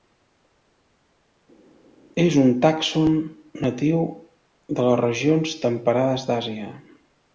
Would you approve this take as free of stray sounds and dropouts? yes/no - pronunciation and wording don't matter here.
yes